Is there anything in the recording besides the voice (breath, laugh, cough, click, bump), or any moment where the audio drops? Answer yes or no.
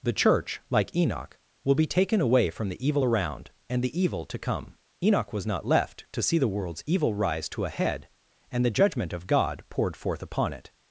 no